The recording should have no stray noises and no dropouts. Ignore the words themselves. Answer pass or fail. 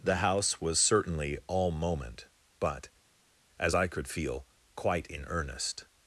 pass